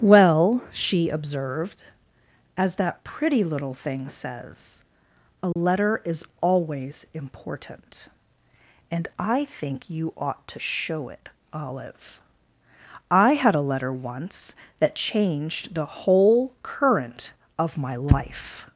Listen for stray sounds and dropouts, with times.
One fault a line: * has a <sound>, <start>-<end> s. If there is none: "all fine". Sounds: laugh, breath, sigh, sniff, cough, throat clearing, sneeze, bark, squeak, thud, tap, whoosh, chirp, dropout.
* has a dropout, 5.5-5.6 s